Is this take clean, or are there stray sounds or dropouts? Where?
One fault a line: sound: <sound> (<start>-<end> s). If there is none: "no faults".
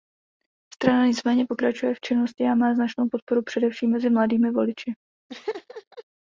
sound: laugh (5.3-6.0 s)